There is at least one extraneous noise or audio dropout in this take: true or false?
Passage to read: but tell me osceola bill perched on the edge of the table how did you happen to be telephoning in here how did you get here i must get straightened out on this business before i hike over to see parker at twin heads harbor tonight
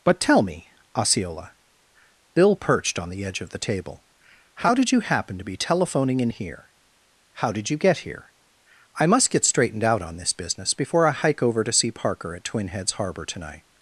false